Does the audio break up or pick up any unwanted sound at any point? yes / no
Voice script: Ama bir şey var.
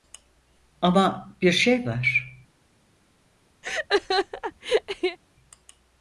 yes